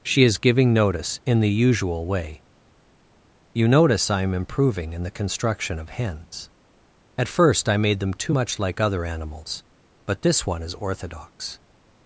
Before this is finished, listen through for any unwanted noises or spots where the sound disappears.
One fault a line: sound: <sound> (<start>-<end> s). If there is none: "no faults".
no faults